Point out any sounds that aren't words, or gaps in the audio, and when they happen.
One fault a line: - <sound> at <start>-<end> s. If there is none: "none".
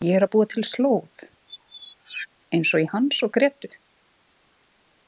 - squeak at 1.5-2.3 s